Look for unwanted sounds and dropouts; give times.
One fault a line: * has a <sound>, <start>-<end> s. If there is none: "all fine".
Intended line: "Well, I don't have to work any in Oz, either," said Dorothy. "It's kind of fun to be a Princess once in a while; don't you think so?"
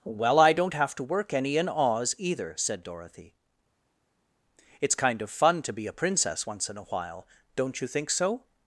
all fine